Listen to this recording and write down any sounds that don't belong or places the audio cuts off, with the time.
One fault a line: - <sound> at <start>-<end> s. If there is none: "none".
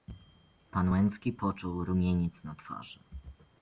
none